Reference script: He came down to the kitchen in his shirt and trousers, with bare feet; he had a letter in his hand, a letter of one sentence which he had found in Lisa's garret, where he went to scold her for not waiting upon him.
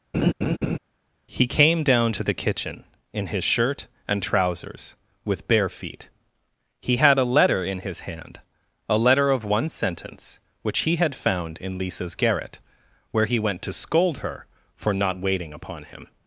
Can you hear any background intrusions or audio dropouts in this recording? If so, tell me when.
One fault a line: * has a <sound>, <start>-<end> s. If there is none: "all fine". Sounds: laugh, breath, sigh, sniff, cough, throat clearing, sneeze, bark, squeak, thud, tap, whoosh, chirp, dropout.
* has a laugh, 0.1-0.8 s